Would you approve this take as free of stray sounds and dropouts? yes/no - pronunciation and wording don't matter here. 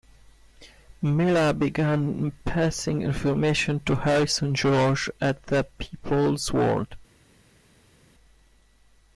yes